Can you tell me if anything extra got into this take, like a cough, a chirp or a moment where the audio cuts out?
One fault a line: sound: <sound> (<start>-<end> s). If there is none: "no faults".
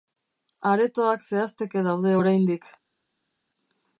no faults